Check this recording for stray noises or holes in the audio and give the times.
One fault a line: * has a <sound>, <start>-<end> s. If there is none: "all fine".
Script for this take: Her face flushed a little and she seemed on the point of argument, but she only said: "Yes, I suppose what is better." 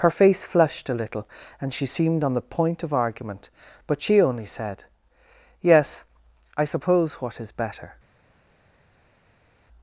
all fine